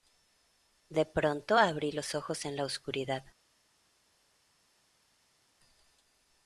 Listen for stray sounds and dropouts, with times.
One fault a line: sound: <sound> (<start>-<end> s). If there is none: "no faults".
no faults